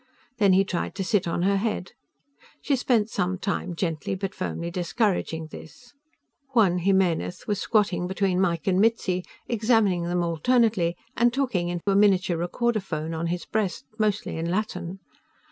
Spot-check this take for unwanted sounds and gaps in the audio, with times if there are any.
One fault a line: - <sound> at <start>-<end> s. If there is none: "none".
- dropout at 11.8-11.9 s